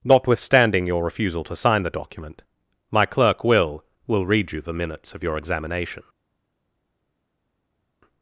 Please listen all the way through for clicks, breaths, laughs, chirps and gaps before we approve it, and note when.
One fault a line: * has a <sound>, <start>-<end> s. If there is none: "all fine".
all fine